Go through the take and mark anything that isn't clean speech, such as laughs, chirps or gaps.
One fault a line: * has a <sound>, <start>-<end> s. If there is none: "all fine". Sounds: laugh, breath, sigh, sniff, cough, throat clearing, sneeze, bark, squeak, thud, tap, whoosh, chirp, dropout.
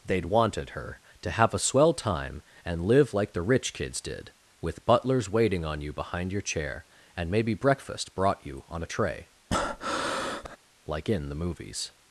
* has a breath, 9.5-10.6 s